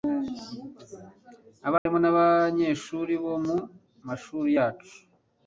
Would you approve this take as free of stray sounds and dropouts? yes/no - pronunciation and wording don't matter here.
no